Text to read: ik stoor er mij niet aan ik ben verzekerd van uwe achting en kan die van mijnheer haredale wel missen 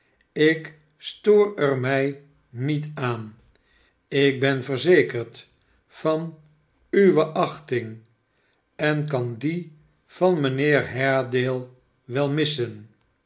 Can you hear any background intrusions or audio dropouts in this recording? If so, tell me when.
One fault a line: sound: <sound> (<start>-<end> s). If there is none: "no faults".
no faults